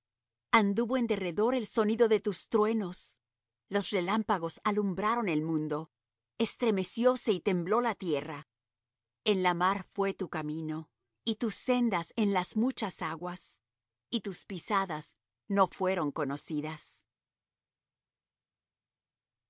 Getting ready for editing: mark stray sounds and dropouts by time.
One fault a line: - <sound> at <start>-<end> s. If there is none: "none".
none